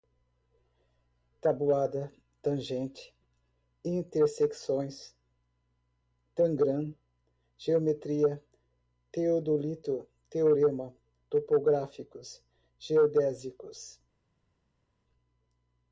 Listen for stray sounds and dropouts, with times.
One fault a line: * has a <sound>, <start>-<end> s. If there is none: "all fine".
all fine